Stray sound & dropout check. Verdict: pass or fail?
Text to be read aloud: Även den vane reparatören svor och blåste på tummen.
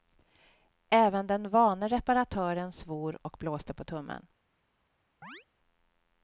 fail